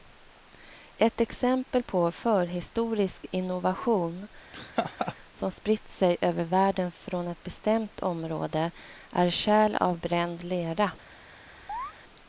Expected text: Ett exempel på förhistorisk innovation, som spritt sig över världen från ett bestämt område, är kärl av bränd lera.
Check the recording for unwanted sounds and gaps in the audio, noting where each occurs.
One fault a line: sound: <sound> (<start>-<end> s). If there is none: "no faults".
sound: laugh (4.5-5.2 s)
sound: chirp (11.7-11.9 s)